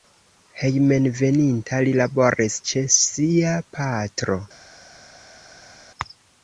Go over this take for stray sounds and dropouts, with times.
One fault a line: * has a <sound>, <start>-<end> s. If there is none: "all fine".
all fine